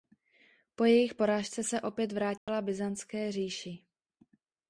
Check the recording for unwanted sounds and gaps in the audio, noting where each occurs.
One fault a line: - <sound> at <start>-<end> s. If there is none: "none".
- dropout at 2.4-2.5 s